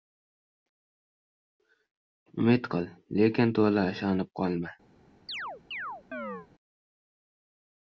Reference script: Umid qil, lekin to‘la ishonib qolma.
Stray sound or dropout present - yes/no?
yes